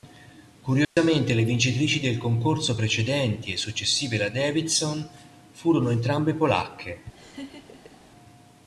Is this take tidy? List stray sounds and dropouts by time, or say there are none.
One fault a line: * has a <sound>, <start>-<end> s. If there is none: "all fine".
* has a dropout, 0.8-1.0 s
* has a laugh, 7.1-8.0 s